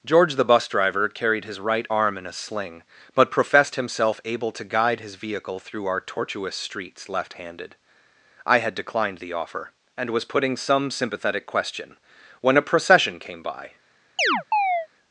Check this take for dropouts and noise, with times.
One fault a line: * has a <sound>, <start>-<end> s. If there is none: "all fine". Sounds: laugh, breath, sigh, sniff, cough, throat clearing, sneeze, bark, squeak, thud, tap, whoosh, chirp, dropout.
* has a chirp, 14.2-14.9 s